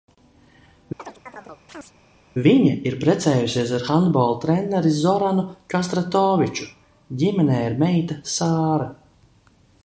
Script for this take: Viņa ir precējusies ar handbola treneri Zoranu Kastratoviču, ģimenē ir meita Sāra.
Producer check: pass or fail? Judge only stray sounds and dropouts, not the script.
fail